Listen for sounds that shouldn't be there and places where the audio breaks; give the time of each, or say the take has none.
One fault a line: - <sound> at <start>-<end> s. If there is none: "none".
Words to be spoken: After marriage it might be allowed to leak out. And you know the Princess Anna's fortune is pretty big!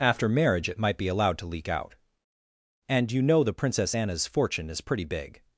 none